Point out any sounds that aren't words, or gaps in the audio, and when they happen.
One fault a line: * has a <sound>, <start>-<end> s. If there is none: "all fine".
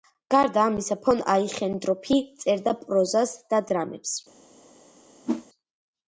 * has a whoosh, 5.3-5.5 s